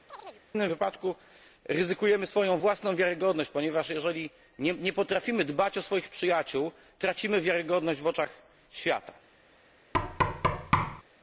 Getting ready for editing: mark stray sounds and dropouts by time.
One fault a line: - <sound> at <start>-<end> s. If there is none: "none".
- chirp at 0.1-0.4 s
- thud at 9.9-11.0 s